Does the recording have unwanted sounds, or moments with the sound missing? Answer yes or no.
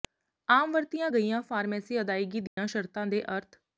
yes